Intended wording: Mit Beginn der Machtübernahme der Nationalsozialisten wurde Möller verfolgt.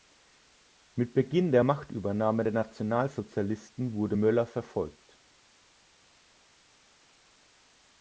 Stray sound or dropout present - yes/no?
no